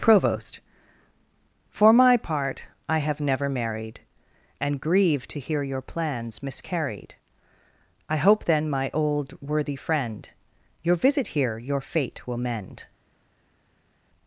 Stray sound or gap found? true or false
false